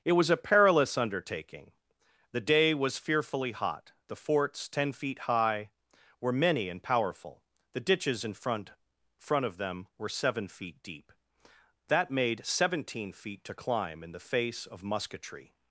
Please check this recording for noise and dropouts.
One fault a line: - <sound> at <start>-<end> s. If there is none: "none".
none